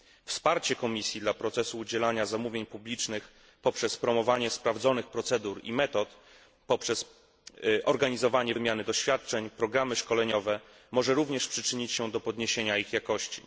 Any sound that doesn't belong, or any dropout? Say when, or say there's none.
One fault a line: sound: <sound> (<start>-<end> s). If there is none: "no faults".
no faults